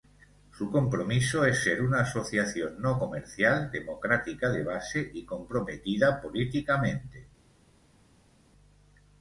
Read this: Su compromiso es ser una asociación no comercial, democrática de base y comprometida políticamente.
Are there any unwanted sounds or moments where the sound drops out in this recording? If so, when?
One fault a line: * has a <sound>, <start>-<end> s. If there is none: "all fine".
all fine